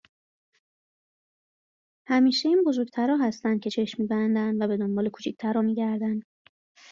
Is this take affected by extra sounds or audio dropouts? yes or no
no